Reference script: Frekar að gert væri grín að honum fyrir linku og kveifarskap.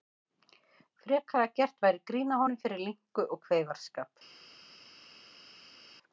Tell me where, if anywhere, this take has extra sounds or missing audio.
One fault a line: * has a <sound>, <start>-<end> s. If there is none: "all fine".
all fine